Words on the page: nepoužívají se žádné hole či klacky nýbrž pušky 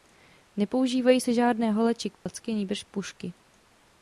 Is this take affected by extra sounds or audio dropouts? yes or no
yes